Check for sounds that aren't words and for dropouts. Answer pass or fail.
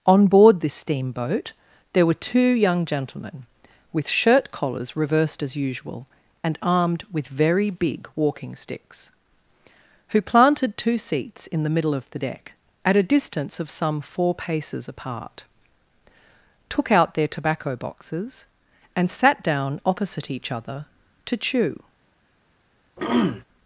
fail